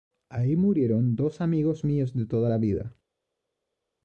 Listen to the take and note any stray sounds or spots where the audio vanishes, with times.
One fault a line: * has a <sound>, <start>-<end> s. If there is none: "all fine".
all fine